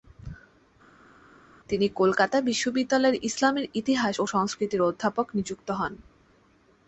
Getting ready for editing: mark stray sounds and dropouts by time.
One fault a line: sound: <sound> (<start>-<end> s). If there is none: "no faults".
no faults